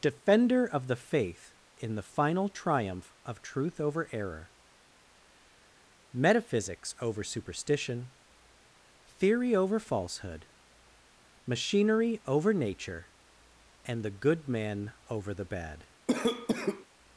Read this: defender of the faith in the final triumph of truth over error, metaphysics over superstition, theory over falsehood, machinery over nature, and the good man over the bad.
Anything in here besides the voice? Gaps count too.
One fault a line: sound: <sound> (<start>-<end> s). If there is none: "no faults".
sound: cough (16.1-16.8 s)